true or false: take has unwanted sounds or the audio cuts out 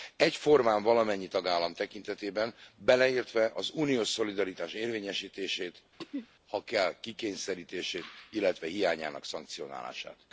true